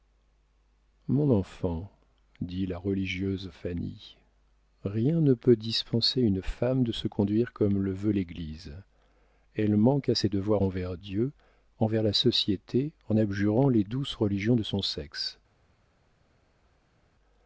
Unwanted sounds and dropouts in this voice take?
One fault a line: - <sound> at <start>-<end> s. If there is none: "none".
none